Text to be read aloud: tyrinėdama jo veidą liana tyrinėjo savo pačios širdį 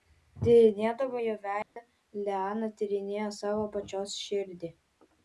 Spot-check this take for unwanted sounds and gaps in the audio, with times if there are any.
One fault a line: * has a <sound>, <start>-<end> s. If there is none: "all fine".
* has a dropout, 1.6-1.8 s